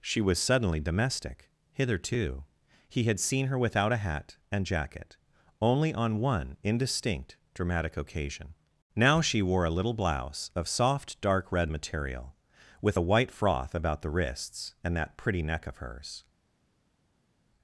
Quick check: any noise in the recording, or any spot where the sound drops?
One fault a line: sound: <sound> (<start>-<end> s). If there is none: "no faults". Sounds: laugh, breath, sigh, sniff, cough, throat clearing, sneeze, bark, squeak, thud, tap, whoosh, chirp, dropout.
no faults